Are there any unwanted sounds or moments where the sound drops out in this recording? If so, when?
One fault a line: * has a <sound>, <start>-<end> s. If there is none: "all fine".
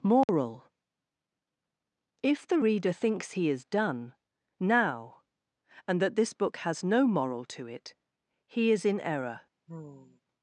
* has a dropout, 0.2-0.3 s
* has a sigh, 9.7-10.2 s